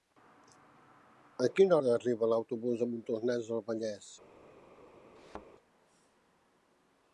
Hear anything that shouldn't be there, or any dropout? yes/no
yes